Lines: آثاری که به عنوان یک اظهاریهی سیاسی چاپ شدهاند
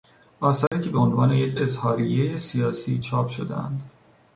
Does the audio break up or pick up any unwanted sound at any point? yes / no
yes